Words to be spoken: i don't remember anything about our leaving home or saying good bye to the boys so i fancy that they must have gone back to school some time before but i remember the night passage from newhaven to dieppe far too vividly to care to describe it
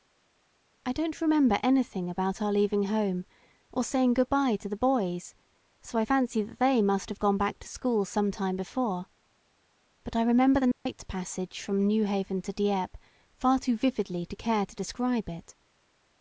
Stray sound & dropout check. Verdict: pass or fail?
fail